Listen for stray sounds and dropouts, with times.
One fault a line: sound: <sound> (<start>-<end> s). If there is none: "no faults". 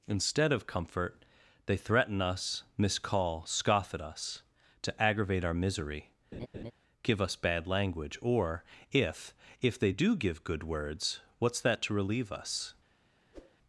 sound: laugh (6.3-6.7 s)
sound: whoosh (13.3-13.6 s)